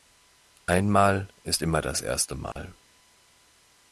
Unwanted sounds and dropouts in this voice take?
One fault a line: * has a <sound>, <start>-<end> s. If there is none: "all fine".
* has a dropout, 2.5-2.6 s